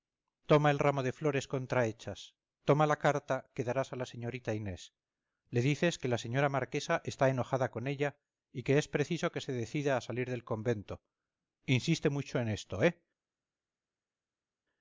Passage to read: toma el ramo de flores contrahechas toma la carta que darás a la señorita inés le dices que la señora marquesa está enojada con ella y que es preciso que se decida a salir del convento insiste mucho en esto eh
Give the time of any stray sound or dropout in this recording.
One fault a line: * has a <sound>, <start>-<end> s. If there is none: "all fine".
all fine